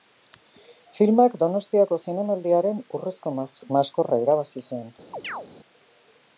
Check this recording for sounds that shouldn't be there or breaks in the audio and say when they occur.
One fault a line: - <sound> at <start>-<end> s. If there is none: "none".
- chirp at 5.1-5.5 s